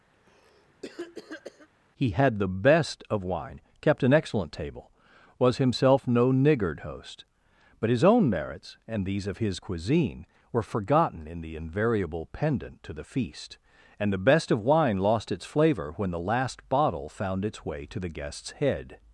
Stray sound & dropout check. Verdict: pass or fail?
fail